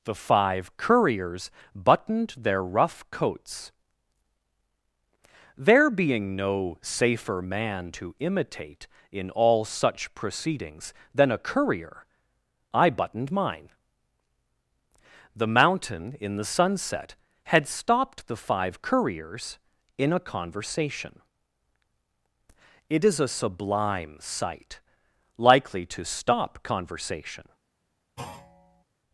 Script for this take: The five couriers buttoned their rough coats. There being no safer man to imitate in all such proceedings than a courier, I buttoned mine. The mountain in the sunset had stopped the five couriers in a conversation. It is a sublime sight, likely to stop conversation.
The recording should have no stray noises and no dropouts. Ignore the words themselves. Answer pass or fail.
fail